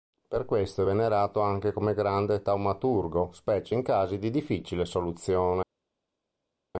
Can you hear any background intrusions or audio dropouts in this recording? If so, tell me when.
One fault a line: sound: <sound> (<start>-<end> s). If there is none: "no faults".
no faults